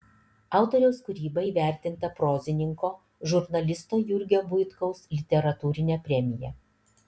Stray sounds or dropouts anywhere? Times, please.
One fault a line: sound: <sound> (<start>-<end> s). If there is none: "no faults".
no faults